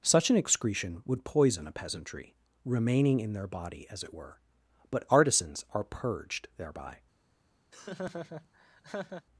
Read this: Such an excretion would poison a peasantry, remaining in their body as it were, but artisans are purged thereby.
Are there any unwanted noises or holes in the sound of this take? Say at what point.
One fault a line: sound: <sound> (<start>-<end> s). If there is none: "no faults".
sound: laugh (7.7-9.3 s)